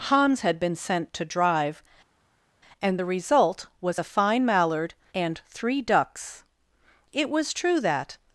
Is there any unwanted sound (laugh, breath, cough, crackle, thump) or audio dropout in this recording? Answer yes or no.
no